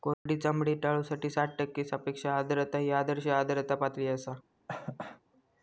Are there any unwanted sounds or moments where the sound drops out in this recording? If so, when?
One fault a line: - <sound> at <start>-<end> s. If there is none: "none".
- dropout at 0.1-0.3 s
- cough at 4.7-5.2 s